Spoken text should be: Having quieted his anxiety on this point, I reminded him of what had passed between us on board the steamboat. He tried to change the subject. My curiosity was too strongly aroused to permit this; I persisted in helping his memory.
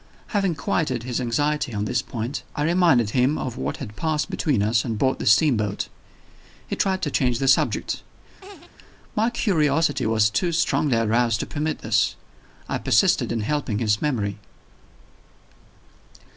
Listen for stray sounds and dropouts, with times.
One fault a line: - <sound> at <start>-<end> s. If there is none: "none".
- laugh at 8.4-8.7 s